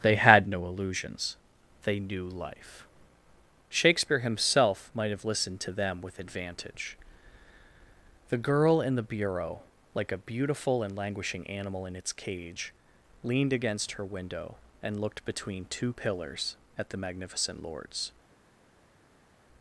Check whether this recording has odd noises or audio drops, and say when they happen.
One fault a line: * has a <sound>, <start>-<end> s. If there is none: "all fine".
all fine